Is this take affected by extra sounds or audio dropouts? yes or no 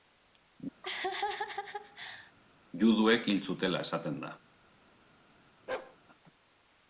yes